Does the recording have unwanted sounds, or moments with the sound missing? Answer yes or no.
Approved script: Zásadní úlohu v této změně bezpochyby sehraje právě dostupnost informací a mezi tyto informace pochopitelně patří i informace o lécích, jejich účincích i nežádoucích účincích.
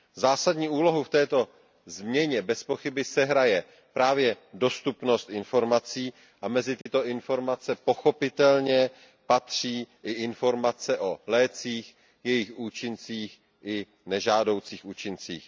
yes